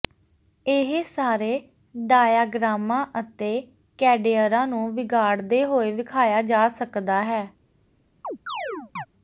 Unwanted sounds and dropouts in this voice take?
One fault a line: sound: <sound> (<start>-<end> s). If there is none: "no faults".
sound: chirp (8.2-9.1 s)